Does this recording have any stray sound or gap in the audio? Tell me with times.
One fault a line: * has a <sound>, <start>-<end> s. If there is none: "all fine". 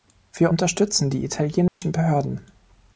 * has a dropout, 1.7-1.8 s